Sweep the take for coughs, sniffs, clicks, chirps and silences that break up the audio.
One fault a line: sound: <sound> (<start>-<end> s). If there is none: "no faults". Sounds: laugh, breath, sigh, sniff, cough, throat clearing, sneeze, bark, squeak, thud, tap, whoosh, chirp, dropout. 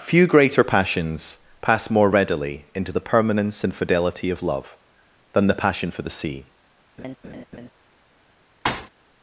sound: laugh (7.0-7.7 s)
sound: thud (8.6-8.9 s)